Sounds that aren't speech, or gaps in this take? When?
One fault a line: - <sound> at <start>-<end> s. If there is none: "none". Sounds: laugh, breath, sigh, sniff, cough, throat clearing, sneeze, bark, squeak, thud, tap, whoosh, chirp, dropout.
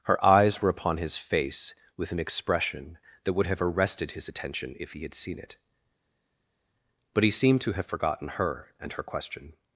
none